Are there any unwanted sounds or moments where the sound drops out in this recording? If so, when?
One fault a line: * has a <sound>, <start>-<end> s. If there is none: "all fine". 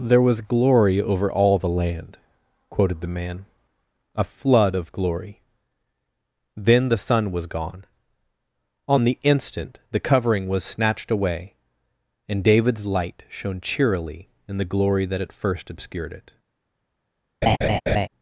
* has a laugh, 17.4-18.1 s